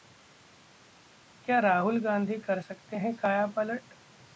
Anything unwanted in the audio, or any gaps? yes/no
no